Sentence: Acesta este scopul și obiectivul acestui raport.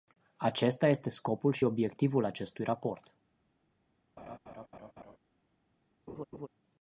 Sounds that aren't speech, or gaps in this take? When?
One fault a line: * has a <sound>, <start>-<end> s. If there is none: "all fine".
* has a laugh, 4.2-5.2 s
* has a laugh, 6.1-6.5 s